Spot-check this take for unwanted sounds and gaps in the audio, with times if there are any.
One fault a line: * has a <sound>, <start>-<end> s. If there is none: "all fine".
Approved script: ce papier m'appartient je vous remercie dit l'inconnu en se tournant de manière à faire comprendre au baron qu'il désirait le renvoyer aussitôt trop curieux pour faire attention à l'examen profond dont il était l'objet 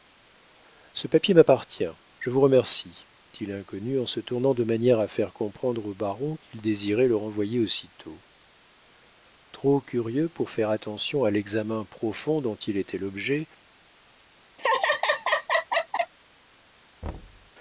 * has a laugh, 14.6-16.1 s
* has a thud, 17.0-17.5 s